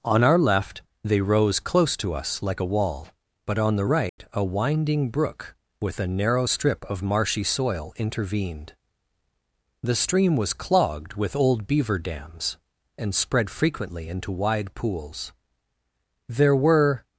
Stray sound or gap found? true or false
true